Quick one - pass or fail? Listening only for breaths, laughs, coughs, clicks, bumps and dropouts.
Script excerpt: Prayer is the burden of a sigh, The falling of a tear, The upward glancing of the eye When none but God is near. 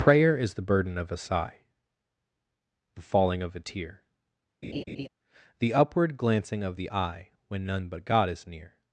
fail